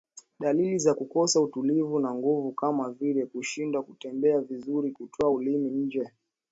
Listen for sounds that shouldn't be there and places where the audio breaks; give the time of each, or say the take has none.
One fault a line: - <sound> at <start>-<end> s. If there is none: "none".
none